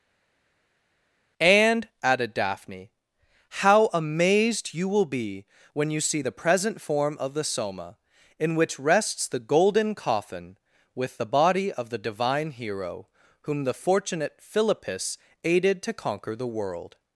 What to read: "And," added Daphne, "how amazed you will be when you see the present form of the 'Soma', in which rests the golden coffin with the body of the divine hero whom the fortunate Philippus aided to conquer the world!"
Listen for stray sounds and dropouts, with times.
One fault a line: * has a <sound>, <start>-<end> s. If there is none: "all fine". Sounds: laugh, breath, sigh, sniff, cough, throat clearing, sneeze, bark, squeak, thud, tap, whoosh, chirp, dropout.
all fine